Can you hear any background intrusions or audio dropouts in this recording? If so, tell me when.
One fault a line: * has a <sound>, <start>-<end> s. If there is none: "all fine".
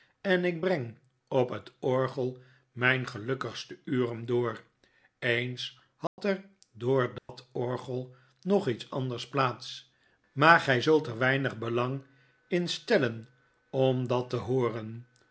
* has a dropout, 6.1-6.2 s
* has a dropout, 7.2-7.3 s